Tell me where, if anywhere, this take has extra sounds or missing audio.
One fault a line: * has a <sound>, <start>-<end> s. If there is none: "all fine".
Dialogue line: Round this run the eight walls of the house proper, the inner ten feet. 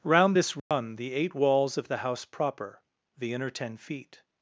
* has a dropout, 0.6-0.7 s